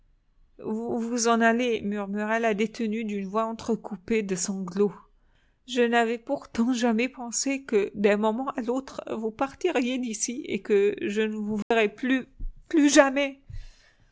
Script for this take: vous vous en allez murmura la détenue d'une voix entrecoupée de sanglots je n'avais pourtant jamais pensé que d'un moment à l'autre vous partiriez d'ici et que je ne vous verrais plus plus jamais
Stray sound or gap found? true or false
true